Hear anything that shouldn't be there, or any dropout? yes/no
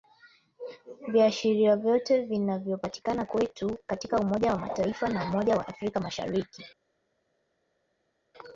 no